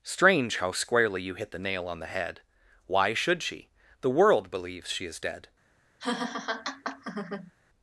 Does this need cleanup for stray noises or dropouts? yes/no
yes